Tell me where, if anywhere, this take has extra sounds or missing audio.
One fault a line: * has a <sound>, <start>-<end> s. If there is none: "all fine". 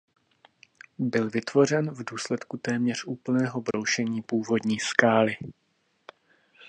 * has a dropout, 3.7-3.7 s